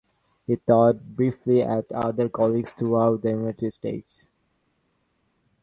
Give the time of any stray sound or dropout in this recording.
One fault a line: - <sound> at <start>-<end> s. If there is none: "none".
none